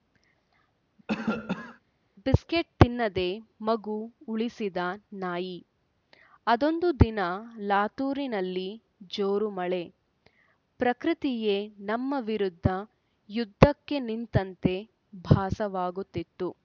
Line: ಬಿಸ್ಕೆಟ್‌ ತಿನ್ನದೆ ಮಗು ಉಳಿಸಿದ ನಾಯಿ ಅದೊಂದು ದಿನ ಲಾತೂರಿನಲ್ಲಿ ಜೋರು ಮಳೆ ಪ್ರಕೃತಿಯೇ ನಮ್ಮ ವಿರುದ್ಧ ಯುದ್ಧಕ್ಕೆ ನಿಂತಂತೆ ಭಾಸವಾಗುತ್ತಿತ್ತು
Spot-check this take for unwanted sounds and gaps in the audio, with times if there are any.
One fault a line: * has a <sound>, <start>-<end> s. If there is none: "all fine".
* has a cough, 1.1-1.8 s